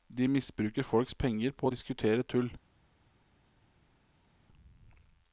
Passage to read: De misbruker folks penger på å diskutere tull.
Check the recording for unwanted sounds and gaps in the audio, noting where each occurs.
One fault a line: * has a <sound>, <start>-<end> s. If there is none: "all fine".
all fine